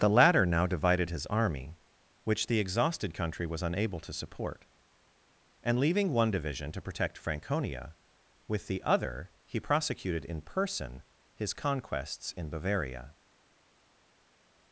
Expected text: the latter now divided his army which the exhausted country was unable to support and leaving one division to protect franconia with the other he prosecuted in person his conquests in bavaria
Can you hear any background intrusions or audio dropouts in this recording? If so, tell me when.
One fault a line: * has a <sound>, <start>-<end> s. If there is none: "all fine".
all fine